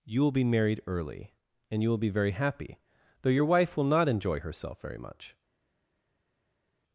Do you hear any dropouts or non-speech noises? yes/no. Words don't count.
no